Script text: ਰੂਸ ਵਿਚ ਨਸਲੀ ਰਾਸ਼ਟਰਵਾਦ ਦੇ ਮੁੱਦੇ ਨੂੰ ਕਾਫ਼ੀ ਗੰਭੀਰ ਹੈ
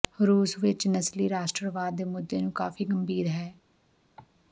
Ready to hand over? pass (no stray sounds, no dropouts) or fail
fail